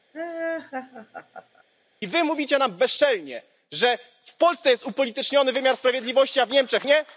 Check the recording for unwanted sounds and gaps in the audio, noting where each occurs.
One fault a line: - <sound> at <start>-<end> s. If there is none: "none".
- laugh at 0.1-1.6 s